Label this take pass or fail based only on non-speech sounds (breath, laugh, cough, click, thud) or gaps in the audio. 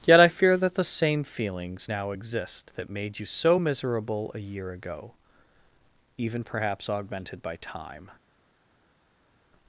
pass